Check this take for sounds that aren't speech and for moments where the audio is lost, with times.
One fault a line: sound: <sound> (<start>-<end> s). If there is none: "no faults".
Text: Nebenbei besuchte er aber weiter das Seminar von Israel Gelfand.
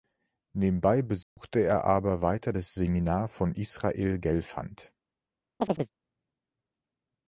sound: dropout (1.2-1.4 s)
sound: chirp (5.6-5.9 s)